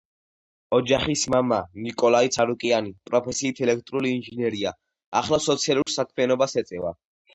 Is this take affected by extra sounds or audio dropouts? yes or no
yes